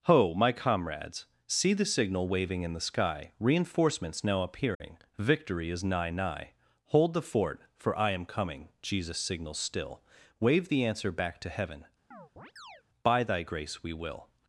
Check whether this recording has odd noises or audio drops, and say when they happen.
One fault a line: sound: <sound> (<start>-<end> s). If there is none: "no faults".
sound: dropout (4.7-4.8 s)
sound: chirp (12.1-12.8 s)